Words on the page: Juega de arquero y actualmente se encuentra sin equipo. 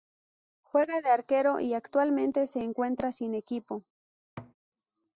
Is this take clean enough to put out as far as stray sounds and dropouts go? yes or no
no